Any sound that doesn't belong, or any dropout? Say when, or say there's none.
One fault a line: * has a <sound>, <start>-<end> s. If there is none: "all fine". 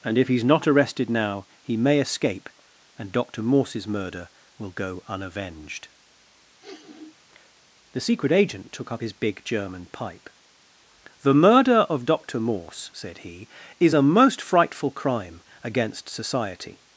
* has a sniff, 6.6-7.2 s